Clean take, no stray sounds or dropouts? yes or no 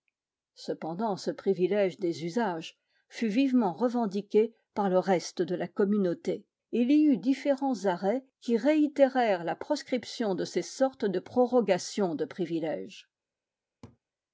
no